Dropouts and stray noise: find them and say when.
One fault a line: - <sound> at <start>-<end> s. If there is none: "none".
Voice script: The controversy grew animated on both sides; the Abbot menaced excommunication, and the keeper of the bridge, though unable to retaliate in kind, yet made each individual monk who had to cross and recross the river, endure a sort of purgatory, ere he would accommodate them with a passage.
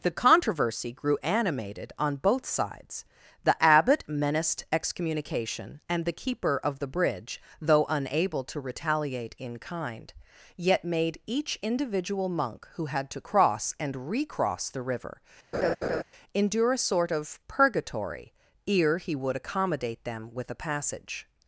- laugh at 15.5-16.0 s